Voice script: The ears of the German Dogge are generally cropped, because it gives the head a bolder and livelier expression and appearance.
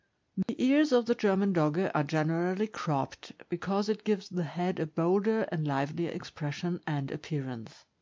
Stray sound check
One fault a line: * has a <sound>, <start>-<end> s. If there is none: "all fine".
* has a dropout, 0.4-0.5 s